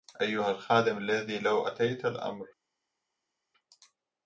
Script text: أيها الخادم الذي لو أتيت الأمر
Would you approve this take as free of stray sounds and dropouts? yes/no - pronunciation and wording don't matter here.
yes